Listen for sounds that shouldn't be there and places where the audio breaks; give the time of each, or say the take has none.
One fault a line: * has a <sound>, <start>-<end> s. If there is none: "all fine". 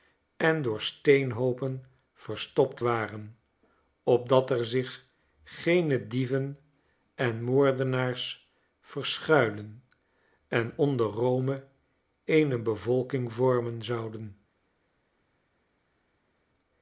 all fine